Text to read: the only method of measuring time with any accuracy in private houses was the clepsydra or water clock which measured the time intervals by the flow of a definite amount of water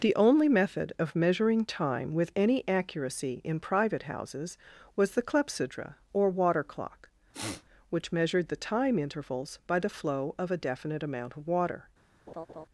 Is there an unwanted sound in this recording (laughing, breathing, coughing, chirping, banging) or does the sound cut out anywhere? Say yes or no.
yes